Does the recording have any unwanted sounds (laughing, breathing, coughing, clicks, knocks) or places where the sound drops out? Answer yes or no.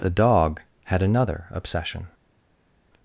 no